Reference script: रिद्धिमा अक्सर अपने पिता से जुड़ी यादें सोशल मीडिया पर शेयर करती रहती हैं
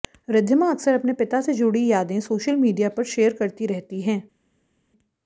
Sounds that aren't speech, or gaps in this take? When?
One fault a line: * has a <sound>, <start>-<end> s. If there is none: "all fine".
all fine